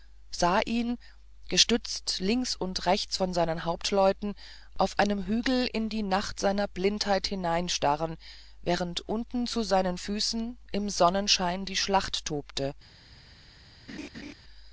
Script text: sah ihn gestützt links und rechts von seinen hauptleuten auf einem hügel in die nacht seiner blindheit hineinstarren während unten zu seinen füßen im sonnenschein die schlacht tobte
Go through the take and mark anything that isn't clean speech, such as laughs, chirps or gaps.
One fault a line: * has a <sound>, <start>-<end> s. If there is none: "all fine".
* has a laugh, 13.9-14.3 s